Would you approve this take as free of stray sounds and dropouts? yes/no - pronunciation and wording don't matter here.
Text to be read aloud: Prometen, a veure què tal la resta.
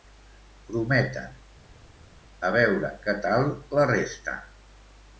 yes